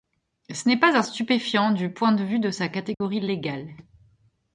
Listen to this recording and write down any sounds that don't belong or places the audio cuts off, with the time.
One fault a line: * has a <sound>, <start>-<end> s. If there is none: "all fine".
* has a dropout, 2.9-3.0 s